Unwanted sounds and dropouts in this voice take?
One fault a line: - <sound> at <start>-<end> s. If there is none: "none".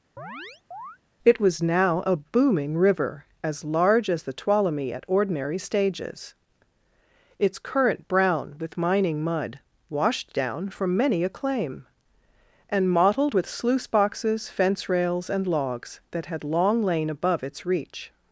- chirp at 0.2-1.0 s